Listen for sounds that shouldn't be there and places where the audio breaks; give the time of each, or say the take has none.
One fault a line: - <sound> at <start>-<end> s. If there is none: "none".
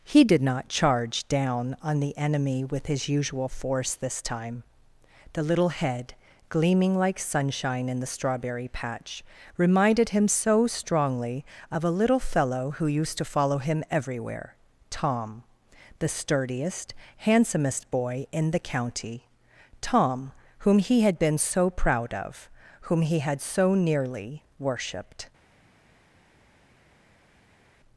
none